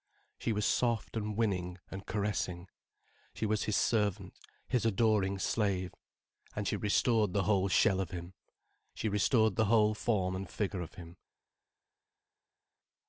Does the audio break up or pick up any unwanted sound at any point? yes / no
no